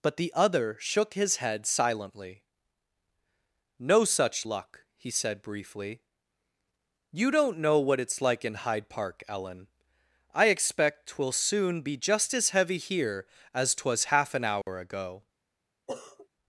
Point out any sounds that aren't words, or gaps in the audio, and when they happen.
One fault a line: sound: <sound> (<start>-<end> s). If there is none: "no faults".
sound: dropout (14.6-14.7 s)
sound: sniff (15.9-16.3 s)